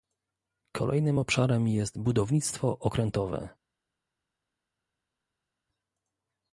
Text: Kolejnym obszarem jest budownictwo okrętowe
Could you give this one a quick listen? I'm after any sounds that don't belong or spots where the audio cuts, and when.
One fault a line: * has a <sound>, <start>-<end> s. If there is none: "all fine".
all fine